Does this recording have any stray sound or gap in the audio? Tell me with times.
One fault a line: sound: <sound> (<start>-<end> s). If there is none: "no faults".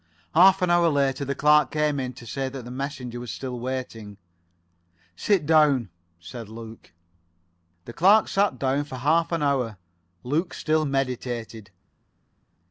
no faults